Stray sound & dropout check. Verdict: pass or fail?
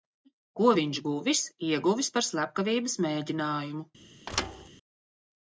fail